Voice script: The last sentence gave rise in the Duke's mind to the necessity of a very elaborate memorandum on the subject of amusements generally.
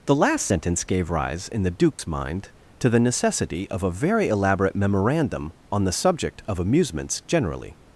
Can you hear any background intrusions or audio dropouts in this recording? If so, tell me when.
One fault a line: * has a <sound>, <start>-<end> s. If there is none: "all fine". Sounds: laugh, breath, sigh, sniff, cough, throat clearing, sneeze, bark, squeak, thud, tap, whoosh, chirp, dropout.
* has a dropout, 1.9-2.0 s